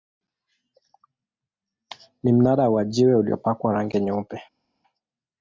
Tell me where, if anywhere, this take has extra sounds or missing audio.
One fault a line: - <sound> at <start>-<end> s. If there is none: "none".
none